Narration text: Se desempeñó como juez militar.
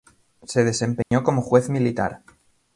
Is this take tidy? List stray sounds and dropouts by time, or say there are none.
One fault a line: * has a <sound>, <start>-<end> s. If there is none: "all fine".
* has a dropout, 1.0-1.1 s